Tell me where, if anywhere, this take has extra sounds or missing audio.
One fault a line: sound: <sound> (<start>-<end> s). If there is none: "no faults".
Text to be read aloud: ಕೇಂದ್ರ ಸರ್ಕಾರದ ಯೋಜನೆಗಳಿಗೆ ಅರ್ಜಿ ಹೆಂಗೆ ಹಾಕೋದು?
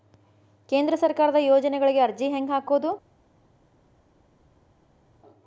no faults